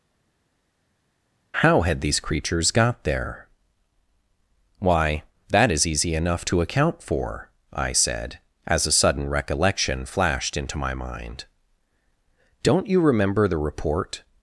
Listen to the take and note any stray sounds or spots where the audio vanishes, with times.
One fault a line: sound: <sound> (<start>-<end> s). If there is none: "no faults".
no faults